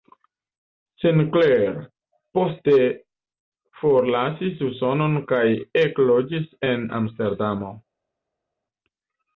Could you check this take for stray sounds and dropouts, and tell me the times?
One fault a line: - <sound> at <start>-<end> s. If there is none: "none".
none